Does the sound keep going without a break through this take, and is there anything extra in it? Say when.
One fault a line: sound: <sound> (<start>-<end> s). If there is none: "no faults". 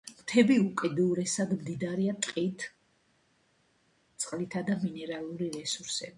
no faults